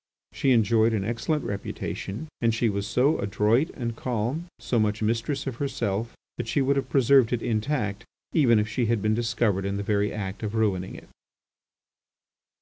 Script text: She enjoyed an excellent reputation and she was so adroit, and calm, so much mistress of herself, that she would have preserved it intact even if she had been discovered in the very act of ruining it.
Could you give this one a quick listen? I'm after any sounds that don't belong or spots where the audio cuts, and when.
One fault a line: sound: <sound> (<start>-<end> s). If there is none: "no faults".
no faults